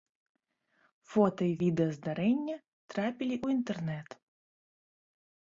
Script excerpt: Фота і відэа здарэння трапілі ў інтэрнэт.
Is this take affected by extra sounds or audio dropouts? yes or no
no